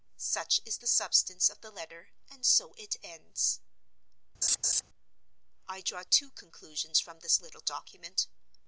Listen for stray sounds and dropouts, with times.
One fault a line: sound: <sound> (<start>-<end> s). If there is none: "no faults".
sound: laugh (4.4-4.8 s)